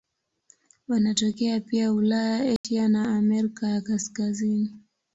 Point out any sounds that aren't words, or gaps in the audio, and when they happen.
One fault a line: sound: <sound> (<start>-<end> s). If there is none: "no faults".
sound: dropout (2.6-2.6 s)